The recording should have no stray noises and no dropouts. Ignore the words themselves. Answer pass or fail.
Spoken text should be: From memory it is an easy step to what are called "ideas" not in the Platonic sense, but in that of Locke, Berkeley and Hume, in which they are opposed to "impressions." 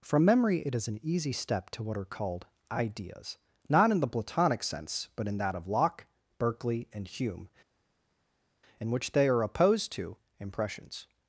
pass